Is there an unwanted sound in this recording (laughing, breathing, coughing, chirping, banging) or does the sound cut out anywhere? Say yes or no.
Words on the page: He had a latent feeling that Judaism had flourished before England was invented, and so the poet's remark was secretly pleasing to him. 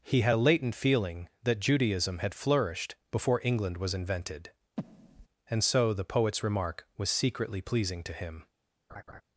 yes